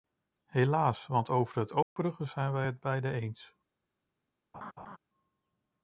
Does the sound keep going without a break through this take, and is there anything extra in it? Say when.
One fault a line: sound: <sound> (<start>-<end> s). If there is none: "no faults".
sound: dropout (1.8-2.0 s)
sound: laugh (4.5-5.0 s)